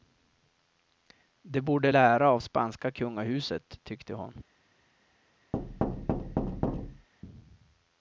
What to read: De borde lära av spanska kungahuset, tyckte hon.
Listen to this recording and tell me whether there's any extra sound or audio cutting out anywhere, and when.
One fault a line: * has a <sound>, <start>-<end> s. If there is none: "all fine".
* has a thud, 5.5-7.1 s